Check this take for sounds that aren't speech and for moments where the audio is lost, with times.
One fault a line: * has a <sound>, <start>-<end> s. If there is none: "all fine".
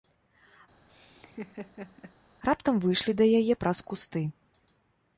* has a laugh, 0.9-2.1 s